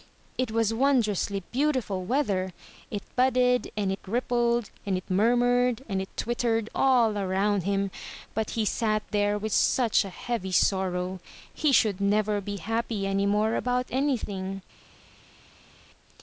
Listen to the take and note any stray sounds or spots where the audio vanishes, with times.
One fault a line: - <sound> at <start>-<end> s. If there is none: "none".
none